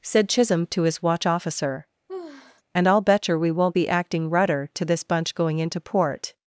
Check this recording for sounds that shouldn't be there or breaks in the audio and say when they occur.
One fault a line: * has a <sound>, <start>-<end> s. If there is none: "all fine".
* has a sigh, 2.1-2.6 s